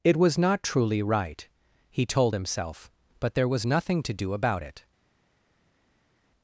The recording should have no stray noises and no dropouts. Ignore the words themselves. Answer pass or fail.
pass